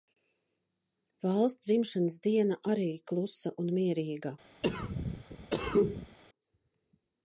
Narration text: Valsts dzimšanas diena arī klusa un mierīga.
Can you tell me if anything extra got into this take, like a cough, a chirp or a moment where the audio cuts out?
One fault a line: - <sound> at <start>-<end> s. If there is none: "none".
- cough at 4.6-6.2 s